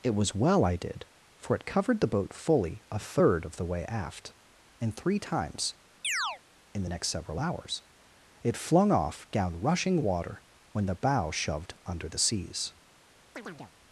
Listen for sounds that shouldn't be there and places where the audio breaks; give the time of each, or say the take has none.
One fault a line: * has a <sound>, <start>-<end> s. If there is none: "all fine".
* has a chirp, 6.0-6.4 s
* has a chirp, 13.4-13.7 s